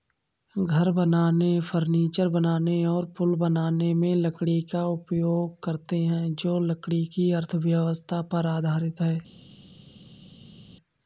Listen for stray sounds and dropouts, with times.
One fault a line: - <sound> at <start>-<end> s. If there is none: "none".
none